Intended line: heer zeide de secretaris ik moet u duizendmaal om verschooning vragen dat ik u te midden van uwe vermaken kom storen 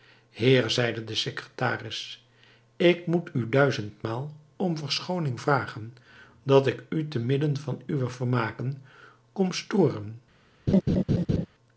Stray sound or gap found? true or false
true